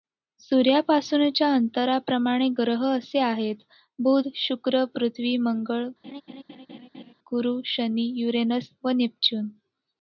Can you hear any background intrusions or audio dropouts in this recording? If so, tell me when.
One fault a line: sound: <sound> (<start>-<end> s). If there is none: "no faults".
sound: laugh (6.0-7.1 s)